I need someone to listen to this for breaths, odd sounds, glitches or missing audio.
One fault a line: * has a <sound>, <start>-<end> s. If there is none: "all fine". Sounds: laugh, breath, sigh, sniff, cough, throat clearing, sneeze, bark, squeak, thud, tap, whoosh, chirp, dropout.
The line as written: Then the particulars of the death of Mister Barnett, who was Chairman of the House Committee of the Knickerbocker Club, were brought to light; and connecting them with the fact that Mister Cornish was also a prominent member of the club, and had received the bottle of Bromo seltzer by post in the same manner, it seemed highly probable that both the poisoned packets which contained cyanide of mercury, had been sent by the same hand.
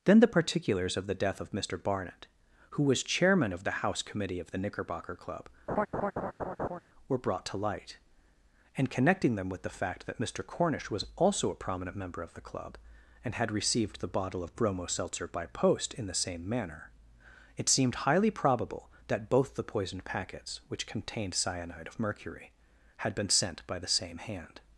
* has a laugh, 5.7-6.8 s